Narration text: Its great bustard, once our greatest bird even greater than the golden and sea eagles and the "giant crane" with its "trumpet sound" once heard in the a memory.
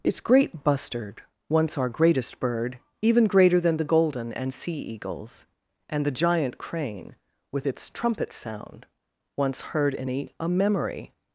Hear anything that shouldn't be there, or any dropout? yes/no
no